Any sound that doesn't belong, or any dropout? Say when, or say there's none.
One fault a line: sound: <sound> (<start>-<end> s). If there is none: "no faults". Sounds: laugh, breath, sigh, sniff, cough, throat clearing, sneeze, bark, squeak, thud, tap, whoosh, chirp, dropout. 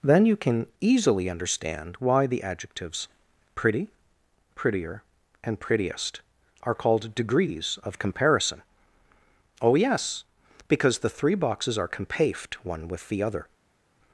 no faults